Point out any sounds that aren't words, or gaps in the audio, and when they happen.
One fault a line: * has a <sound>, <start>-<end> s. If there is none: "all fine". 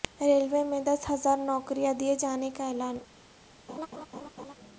* has a laugh, 3.7-4.5 s